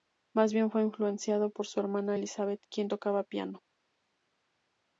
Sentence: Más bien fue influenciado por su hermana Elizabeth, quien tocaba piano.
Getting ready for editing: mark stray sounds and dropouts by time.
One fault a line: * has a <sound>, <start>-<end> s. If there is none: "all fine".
all fine